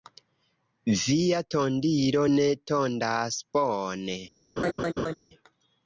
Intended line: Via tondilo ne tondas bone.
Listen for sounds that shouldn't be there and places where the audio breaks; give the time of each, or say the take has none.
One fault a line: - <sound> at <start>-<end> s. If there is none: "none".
- laugh at 4.6-5.1 s